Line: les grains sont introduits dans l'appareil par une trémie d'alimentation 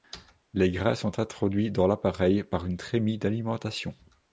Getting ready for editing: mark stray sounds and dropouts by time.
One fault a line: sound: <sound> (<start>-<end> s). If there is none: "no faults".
no faults